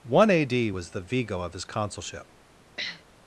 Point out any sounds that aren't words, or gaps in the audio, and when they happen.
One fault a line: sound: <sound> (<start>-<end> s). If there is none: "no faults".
sound: sniff (2.8-3.0 s)